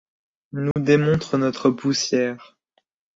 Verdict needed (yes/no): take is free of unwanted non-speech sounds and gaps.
no